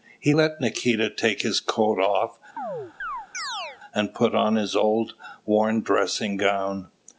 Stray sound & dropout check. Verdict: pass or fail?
fail